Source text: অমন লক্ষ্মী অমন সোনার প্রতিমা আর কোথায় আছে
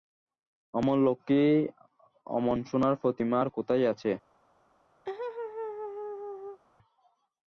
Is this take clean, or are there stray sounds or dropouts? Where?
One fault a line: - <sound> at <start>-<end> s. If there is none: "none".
- laugh at 5.1-6.6 s